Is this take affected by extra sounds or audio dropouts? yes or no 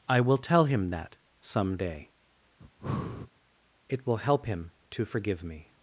yes